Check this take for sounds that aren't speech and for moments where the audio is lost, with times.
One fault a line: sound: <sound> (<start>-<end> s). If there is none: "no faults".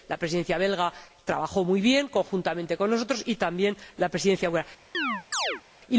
sound: chirp (4.9-5.6 s)